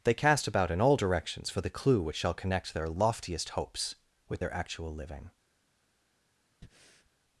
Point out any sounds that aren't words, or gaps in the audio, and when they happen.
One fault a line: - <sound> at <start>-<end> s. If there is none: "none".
- breath at 6.6-7.1 s